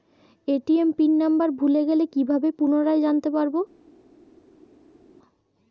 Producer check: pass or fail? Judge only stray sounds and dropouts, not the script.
pass